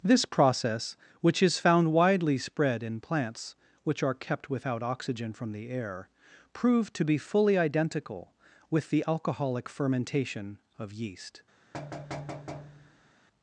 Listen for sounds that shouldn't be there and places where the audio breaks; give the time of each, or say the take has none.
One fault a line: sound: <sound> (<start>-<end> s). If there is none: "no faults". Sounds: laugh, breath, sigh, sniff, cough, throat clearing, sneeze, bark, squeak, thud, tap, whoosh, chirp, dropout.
sound: thud (11.7-13.1 s)